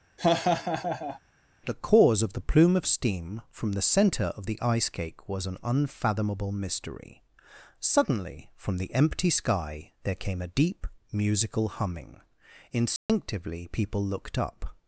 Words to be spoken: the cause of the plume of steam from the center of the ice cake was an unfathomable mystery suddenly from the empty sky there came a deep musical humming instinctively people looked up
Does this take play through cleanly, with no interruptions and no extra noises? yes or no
no